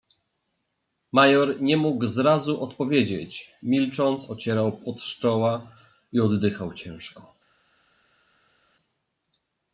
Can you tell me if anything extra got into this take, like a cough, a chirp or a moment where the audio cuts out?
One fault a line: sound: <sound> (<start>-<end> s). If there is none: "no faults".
no faults